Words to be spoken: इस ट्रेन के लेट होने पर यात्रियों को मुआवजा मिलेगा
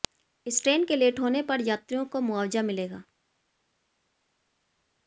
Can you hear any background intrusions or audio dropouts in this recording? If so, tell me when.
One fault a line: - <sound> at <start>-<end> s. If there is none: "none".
none